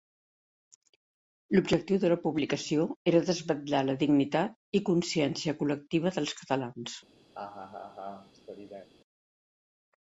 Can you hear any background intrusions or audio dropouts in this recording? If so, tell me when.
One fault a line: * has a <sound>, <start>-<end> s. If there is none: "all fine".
* has a laugh, 7.3-8.9 s